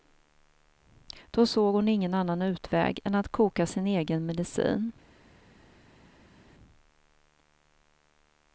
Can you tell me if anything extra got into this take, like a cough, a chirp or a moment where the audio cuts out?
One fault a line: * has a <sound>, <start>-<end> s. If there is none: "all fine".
all fine